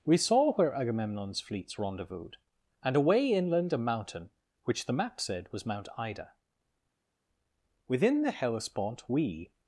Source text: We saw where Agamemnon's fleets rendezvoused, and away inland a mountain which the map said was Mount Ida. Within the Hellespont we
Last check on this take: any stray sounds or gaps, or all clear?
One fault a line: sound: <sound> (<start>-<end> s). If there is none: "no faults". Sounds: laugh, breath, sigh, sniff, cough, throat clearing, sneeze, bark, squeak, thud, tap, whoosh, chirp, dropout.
no faults